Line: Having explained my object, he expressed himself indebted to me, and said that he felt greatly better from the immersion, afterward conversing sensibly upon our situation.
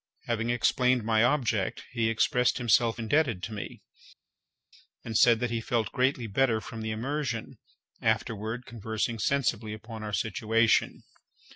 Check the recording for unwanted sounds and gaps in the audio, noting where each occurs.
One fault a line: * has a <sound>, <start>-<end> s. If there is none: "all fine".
all fine